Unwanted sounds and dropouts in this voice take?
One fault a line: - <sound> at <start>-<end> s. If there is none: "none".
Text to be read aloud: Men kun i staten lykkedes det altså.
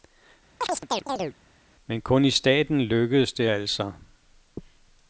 - chirp at 0.6-1.4 s